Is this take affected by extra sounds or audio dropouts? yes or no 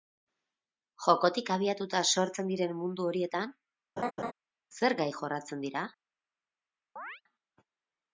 yes